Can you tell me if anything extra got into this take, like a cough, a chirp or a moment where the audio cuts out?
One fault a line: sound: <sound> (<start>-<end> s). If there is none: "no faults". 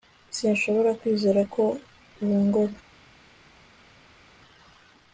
no faults